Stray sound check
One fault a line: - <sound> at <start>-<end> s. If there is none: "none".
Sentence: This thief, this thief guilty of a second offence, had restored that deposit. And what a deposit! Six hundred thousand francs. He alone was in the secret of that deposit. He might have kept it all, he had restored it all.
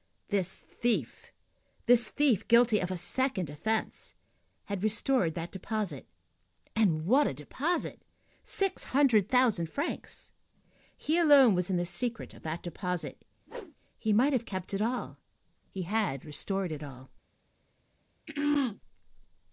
- whoosh at 13.5-13.8 s
- throat clearing at 18.3-18.8 s